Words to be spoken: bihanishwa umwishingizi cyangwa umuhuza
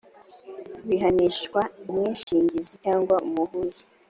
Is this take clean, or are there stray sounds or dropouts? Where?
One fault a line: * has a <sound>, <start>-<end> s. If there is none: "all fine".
* has a dropout, 2.2-2.3 s